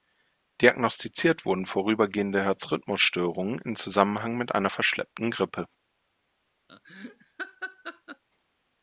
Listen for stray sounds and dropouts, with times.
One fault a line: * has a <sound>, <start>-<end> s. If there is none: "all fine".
* has a laugh, 6.7-8.2 s